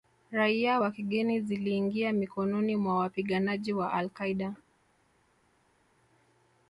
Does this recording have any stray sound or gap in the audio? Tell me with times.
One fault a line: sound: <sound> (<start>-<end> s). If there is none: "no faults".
no faults